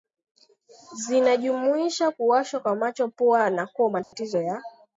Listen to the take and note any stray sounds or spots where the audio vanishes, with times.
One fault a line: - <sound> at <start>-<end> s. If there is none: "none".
- dropout at 4.0-4.1 s